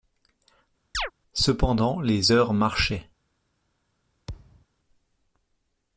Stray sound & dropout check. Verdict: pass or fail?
fail